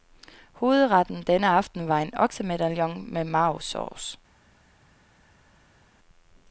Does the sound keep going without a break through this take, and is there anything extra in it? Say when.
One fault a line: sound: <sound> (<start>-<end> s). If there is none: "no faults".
no faults